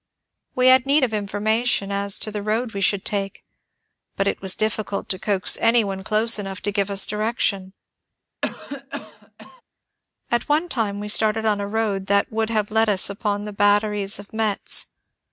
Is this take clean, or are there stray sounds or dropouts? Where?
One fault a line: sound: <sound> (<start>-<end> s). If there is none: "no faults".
sound: cough (8.4-9.6 s)